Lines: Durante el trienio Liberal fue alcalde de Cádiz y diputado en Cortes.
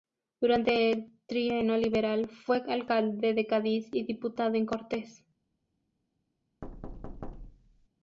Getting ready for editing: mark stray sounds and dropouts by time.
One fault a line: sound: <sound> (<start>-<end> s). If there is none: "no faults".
sound: thud (6.6-7.9 s)